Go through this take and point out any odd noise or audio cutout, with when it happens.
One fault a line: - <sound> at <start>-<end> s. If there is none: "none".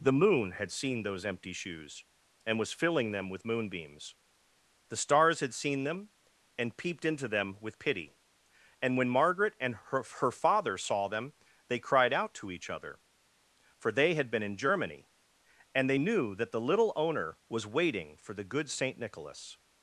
none